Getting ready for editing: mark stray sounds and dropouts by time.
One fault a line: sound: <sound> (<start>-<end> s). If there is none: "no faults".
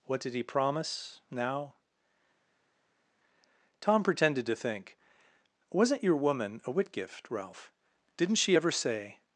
no faults